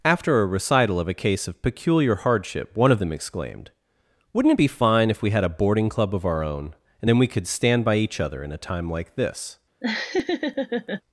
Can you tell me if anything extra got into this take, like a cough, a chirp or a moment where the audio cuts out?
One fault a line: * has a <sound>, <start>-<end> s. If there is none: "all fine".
* has a laugh, 9.8-11.0 s